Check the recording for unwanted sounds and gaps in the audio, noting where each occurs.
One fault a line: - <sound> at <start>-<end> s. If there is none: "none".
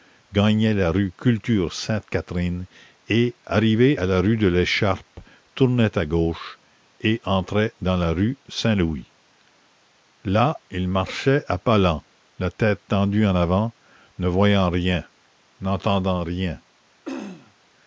- throat clearing at 17.0-17.5 s